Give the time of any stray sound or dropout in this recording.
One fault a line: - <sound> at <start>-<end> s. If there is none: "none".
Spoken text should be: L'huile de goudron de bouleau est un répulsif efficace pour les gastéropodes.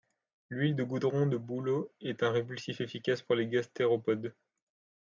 none